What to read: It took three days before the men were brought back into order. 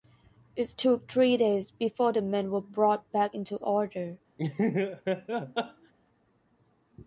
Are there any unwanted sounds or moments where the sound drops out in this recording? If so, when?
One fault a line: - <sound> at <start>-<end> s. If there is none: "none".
- laugh at 4.4-5.9 s